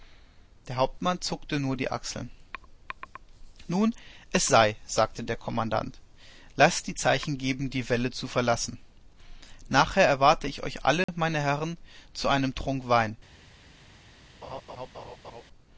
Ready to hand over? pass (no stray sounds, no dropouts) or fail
fail